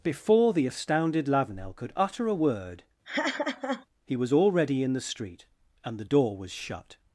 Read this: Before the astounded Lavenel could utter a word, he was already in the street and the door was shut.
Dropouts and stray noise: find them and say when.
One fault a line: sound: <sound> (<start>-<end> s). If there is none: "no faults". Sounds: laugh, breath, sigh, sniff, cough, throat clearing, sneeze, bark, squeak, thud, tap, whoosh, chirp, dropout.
sound: laugh (3.0-3.9 s)